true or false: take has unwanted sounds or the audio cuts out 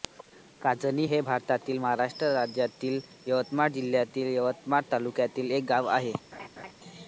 true